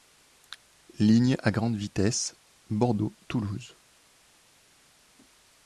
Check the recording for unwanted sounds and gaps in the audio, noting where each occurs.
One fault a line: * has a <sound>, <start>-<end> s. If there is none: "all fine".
all fine